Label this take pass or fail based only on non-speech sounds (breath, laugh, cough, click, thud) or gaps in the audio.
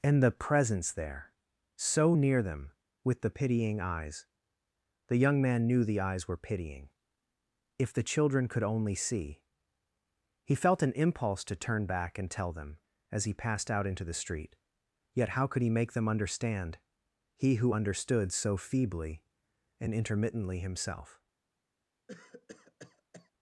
fail